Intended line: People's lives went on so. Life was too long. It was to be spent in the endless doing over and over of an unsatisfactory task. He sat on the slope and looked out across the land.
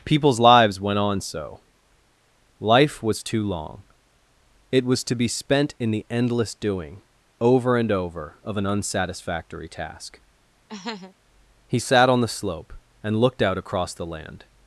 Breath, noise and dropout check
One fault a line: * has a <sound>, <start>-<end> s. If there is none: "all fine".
* has a laugh, 10.7-11.1 s